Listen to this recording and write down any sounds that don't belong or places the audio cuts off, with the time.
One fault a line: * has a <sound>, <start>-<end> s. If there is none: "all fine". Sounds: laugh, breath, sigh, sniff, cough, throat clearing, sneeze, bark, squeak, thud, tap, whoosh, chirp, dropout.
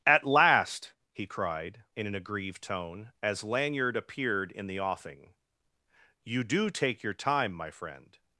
all fine